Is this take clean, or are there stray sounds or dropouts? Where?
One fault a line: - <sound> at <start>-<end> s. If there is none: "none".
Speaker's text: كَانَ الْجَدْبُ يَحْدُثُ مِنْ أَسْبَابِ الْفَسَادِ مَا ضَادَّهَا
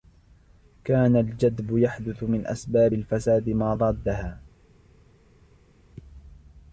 none